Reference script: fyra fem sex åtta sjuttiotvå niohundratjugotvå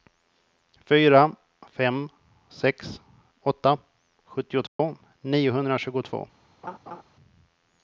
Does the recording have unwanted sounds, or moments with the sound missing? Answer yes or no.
yes